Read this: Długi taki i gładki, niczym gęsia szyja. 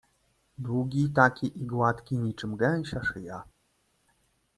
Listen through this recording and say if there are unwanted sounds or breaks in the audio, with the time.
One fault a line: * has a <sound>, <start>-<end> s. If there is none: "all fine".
all fine